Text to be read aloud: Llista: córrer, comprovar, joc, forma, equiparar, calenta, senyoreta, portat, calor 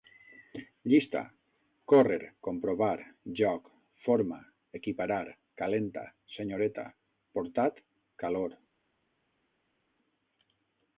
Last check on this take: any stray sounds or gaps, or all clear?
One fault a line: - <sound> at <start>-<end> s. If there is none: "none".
none